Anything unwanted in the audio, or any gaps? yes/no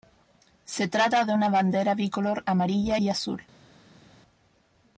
no